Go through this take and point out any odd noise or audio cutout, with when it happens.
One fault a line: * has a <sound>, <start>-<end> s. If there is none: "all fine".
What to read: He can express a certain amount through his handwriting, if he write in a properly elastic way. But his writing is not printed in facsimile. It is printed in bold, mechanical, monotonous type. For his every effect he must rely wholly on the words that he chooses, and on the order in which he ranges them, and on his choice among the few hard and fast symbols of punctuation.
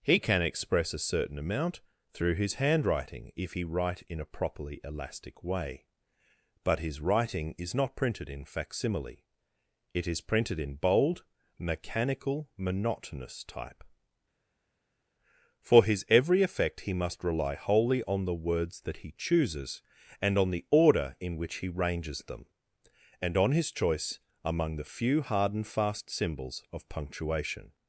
all fine